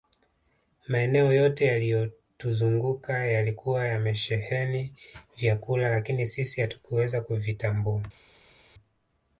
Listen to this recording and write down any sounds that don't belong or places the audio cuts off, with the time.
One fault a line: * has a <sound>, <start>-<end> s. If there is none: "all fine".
all fine